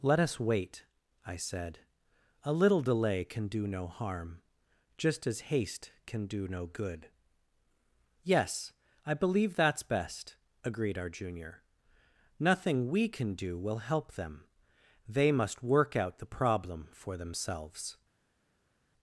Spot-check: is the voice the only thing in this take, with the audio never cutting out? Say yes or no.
yes